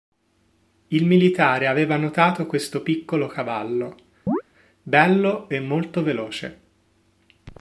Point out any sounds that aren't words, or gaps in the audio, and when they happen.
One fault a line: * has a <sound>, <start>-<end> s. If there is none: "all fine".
* has a chirp, 4.3-4.4 s